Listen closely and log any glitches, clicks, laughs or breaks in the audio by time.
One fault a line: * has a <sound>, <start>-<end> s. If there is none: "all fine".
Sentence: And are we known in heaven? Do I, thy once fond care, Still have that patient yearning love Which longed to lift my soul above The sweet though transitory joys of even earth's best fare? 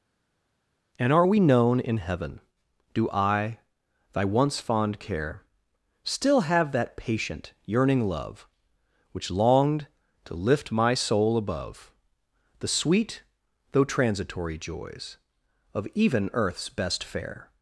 all fine